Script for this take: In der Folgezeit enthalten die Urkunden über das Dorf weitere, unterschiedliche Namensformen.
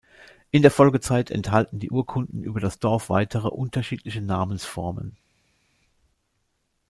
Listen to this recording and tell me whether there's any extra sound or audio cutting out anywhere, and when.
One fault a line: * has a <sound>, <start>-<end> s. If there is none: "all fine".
all fine